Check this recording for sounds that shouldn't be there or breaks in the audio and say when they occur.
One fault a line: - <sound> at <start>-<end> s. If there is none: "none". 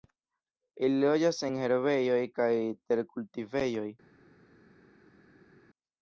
none